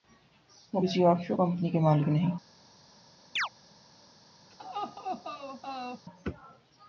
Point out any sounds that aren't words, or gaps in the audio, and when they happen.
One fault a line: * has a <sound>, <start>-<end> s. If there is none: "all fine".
* has a chirp, 3.4-3.5 s
* has a laugh, 4.5-6.1 s